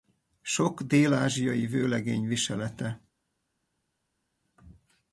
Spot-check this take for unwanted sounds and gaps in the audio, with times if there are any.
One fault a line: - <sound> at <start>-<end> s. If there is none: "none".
none